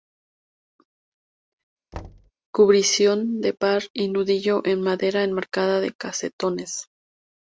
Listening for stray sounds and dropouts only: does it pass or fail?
fail